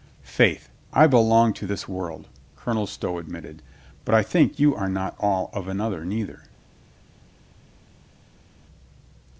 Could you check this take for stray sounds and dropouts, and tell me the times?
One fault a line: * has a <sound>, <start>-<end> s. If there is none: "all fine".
all fine